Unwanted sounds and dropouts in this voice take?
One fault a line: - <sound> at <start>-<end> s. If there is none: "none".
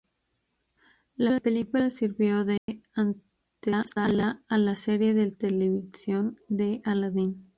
- dropout at 2.6-2.7 s